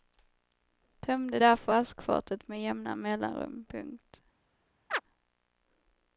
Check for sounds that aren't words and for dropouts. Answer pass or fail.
fail